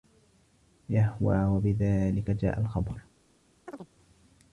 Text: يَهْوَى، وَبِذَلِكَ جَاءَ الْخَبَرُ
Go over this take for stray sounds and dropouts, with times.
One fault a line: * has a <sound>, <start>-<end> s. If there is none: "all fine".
* has a chirp, 3.7-3.9 s